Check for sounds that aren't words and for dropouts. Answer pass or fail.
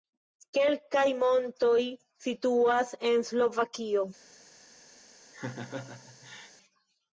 fail